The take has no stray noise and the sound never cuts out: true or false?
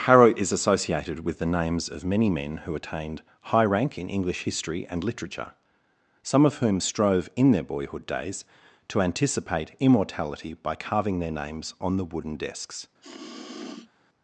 false